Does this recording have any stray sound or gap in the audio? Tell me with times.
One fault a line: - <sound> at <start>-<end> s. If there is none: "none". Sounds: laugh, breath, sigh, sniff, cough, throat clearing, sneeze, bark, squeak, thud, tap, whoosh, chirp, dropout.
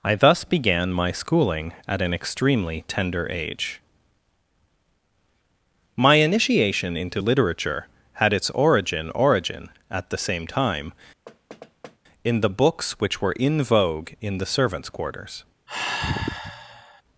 - thud at 11.3-12.0 s
- sigh at 15.7-17.0 s